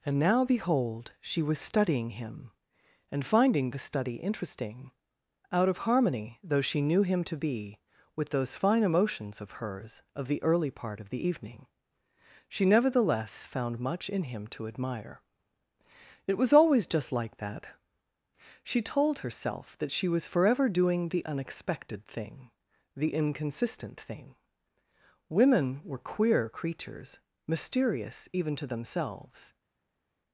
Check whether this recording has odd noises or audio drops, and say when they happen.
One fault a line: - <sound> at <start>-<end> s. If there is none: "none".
none